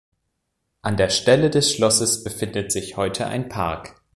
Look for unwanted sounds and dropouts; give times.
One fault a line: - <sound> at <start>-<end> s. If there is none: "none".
none